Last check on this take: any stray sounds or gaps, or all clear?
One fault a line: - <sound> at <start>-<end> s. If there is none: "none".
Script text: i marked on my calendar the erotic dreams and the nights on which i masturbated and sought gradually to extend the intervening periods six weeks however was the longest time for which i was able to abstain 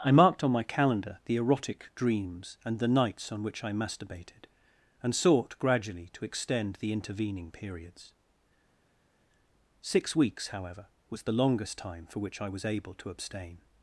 none